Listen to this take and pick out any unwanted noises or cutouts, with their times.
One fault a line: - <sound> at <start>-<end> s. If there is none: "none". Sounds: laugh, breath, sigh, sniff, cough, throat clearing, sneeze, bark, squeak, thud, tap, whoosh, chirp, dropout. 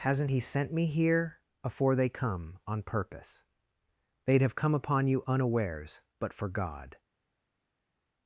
none